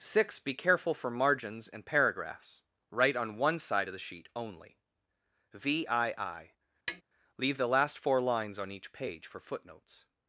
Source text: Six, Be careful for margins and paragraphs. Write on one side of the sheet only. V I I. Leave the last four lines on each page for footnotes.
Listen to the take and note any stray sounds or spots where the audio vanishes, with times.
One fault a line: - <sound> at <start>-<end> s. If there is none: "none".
- tap at 6.9-7.0 s